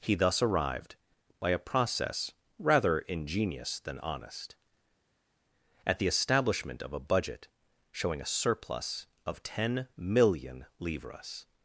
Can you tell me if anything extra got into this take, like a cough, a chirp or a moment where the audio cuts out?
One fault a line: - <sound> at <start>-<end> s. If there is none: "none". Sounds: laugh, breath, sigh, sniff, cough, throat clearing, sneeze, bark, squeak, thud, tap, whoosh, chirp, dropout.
none